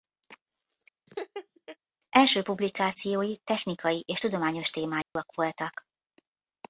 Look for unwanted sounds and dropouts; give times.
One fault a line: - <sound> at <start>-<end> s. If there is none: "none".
- laugh at 1.1-1.8 s
- dropout at 5.0-5.2 s